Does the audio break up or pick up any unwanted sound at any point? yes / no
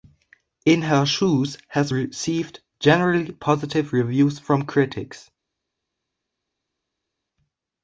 no